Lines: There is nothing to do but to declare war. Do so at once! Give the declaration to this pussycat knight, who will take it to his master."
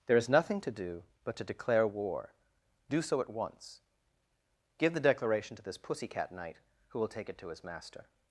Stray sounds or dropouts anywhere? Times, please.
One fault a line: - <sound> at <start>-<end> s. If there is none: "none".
none